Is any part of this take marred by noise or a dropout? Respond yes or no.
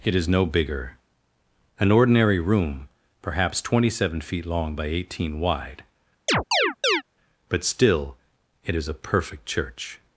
yes